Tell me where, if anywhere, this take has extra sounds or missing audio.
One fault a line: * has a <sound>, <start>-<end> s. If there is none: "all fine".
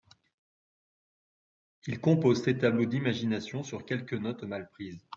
all fine